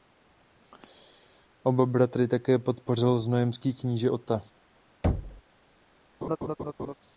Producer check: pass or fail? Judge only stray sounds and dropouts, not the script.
fail